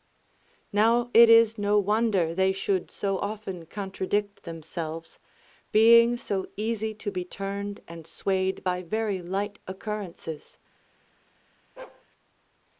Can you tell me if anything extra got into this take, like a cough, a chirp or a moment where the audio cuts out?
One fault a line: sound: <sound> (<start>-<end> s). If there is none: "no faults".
sound: bark (11.8-12.0 s)